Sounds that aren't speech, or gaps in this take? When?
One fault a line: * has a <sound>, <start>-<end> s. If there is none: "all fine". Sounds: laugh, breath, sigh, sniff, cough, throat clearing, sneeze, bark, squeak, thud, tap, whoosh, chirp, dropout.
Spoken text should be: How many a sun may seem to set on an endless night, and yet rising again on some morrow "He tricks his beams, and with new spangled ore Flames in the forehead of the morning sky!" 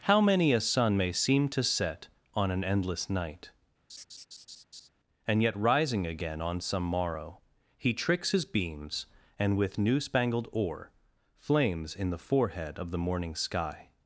* has a laugh, 3.9-4.9 s